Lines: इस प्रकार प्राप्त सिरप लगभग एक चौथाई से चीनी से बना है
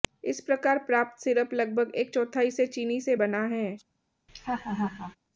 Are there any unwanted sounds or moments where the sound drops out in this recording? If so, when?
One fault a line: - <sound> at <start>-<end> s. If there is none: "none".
- laugh at 4.3-5.2 s